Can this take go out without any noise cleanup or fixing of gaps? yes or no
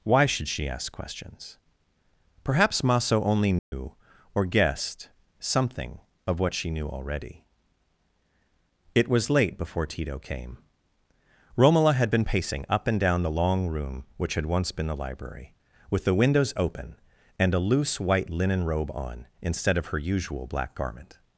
no